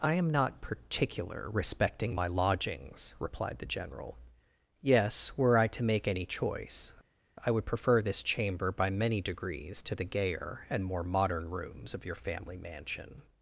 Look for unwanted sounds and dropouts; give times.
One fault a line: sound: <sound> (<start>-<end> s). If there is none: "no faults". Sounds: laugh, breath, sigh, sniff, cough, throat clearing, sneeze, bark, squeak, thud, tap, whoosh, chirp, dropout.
no faults